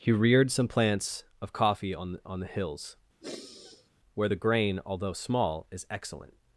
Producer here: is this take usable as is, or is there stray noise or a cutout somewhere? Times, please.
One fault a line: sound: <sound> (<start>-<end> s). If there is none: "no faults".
sound: sigh (3.2-3.9 s)